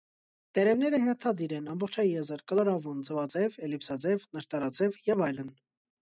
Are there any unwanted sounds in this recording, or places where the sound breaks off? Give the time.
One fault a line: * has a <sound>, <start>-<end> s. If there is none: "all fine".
all fine